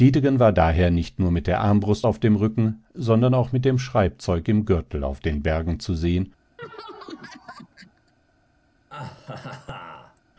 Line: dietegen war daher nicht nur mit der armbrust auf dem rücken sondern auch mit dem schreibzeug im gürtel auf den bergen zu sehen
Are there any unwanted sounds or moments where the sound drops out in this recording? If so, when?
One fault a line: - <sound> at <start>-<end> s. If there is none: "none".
- laugh at 6.6-8.1 s
- laugh at 8.9-10.2 s